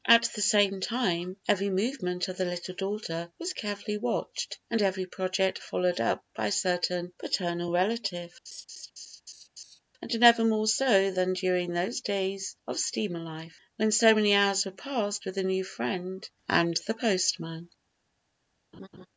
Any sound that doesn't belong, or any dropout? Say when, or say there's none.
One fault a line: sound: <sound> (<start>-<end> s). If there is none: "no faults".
sound: laugh (8.5-9.8 s)
sound: laugh (18.7-19.1 s)